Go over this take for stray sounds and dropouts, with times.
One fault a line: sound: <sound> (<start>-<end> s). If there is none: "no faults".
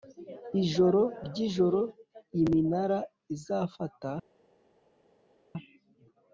no faults